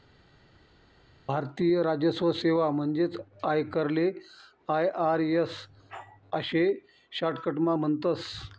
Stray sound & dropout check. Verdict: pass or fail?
pass